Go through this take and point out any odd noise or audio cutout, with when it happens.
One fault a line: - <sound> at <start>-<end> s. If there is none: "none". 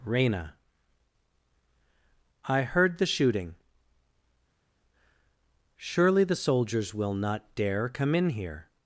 none